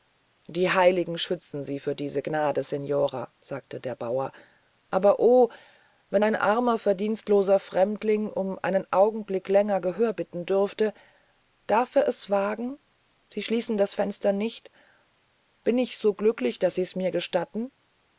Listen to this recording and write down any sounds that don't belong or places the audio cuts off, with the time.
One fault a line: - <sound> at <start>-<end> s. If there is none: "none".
none